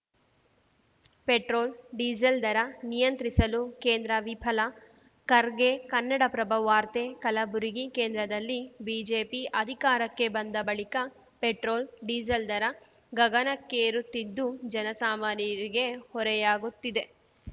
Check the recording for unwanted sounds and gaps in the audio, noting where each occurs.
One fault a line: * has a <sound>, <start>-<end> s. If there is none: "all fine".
all fine